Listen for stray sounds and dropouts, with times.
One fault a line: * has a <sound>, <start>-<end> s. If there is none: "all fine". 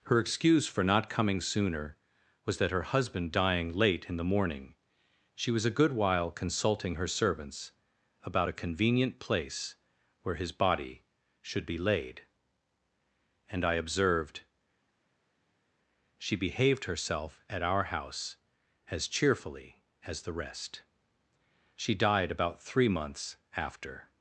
all fine